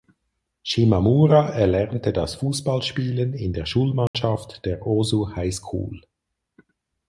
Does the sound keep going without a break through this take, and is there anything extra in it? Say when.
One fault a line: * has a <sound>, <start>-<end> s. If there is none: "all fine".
* has a dropout, 4.1-4.1 s